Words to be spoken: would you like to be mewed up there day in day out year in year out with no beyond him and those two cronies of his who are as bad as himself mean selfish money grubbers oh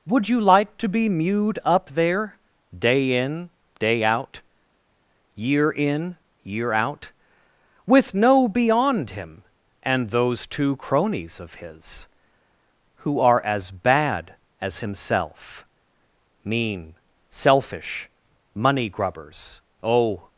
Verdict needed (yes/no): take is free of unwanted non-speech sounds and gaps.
yes